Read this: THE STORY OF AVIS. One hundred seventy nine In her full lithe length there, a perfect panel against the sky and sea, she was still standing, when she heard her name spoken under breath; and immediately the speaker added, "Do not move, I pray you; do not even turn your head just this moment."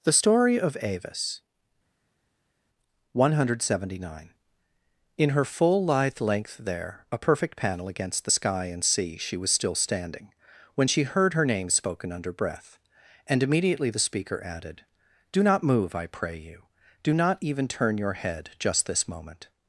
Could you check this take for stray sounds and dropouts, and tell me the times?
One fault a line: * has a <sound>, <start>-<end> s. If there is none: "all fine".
all fine